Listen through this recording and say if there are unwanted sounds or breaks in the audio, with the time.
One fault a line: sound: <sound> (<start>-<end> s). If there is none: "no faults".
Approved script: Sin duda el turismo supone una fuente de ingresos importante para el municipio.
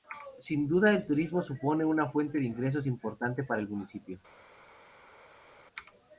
no faults